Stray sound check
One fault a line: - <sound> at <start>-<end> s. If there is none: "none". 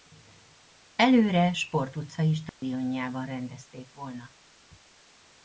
- dropout at 2.5-2.6 s